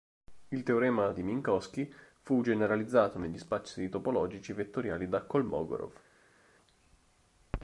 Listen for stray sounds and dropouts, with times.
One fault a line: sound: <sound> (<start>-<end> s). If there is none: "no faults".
no faults